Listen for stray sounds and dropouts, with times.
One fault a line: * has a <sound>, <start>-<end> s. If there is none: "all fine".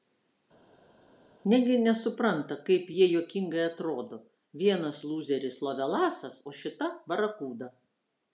all fine